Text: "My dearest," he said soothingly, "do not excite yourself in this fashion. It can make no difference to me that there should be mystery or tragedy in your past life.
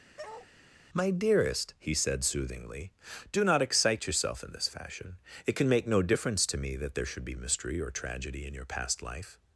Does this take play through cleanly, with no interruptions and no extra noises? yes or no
no